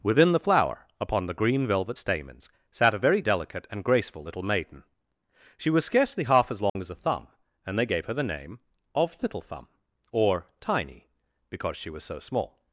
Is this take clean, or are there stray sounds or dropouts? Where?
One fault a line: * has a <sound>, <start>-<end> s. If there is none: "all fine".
* has a dropout, 6.7-6.8 s